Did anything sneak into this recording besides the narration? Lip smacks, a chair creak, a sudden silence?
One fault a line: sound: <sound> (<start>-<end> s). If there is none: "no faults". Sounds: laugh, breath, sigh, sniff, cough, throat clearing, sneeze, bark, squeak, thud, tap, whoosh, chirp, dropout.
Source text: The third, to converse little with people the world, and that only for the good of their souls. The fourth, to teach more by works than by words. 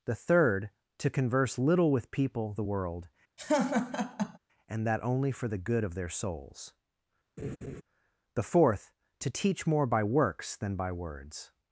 sound: laugh (3.4-4.4 s)
sound: laugh (7.4-7.8 s)